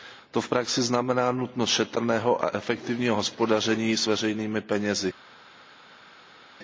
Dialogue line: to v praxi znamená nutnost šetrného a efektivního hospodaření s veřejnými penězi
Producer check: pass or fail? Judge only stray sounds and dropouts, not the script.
pass